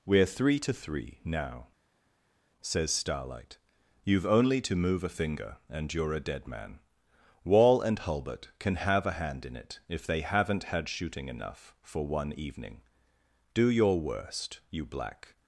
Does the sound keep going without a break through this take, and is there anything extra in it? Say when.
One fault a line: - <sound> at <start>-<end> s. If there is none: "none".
none